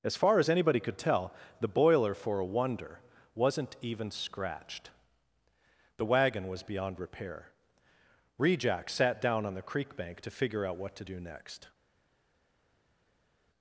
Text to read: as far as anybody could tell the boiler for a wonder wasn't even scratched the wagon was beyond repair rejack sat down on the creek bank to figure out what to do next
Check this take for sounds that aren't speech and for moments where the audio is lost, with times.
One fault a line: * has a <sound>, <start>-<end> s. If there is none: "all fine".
all fine